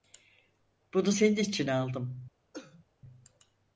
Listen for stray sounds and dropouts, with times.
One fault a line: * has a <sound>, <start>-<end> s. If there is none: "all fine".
* has a cough, 2.5-2.9 s